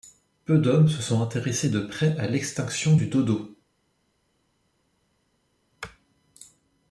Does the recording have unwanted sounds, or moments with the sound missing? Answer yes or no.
no